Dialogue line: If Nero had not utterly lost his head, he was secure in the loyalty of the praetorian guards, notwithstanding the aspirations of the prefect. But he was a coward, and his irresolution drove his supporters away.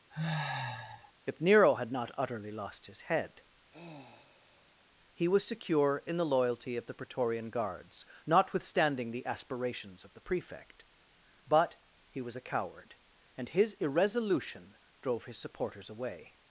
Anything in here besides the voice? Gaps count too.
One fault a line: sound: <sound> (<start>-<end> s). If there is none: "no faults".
sound: sniff (0.1-1.1 s)
sound: sigh (3.7-4.9 s)